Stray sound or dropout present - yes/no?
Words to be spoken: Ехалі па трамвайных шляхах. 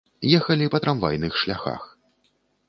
no